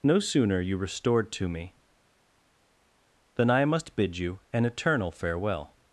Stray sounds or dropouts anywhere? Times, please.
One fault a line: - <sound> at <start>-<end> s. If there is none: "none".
none